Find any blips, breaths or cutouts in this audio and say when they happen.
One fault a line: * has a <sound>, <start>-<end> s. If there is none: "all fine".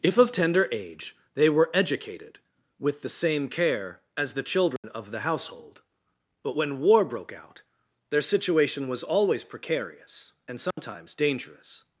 * has a dropout, 4.8-4.8 s
* has a dropout, 10.7-10.8 s